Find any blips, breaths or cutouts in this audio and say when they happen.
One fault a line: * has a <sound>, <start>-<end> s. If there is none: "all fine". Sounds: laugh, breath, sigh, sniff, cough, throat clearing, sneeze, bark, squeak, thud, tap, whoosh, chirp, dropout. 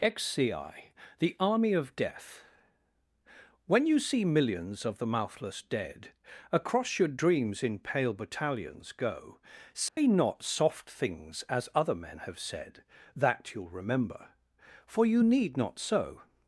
* has a dropout, 9.9-10.0 s